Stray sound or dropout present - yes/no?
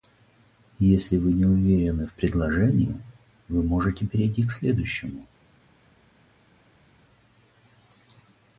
no